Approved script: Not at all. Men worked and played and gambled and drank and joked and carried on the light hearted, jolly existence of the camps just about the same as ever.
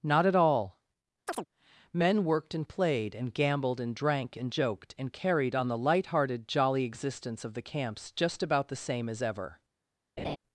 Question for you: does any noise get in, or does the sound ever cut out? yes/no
yes